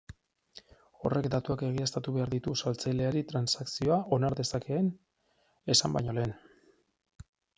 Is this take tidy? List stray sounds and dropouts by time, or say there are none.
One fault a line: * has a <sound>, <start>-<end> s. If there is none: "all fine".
all fine